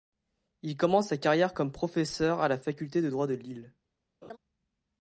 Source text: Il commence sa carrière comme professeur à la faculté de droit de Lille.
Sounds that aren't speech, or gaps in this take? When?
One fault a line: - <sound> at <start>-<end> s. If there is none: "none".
- laugh at 4.2-4.4 s